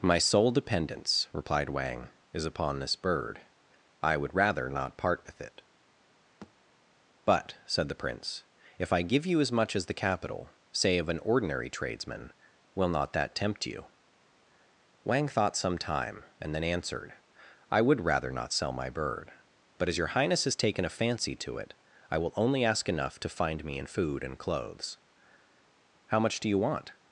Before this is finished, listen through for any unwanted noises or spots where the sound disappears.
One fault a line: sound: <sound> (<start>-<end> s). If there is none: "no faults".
sound: thud (6.4-6.5 s)